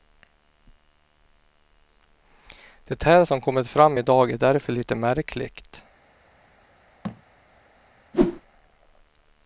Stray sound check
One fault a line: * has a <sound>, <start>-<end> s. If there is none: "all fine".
* has a thud, 7.0-7.2 s
* has a whoosh, 8.1-8.4 s